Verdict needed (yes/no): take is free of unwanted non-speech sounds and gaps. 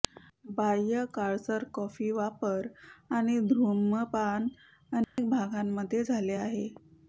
no